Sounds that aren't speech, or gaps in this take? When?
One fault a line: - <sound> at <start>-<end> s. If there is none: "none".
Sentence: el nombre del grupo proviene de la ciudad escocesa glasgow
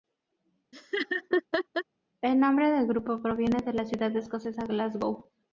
- laugh at 0.7-1.8 s